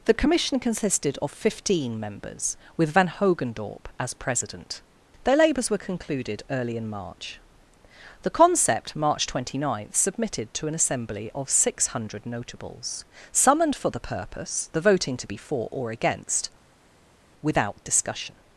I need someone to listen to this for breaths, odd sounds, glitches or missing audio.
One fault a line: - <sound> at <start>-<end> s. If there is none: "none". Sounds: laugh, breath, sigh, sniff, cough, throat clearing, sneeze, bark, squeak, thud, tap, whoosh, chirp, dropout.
none